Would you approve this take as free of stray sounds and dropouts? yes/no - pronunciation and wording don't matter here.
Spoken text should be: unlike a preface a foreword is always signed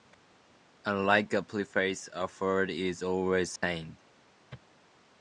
no